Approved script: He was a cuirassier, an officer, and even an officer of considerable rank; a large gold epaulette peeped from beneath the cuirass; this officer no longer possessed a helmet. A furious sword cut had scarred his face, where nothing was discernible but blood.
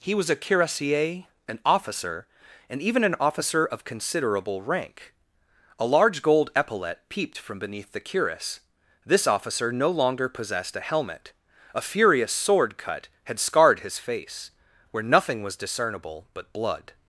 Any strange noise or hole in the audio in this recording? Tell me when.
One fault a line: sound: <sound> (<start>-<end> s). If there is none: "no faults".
no faults